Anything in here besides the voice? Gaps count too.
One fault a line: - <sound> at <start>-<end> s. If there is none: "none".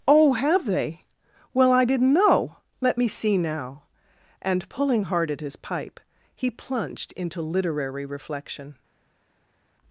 none